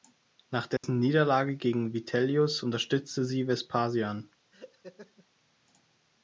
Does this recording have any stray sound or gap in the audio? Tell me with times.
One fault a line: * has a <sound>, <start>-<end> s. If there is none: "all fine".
* has a dropout, 0.8-0.8 s
* has a laugh, 4.5-5.3 s